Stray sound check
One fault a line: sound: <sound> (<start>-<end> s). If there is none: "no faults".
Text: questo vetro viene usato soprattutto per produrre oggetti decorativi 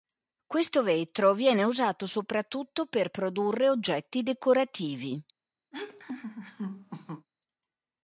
sound: laugh (5.7-7.3 s)